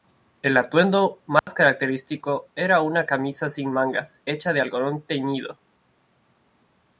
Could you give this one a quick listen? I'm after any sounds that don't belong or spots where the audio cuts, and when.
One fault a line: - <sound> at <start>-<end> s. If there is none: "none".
- dropout at 1.4-1.5 s